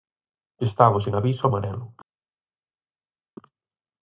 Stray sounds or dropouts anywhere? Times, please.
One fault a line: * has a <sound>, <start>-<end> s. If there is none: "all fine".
all fine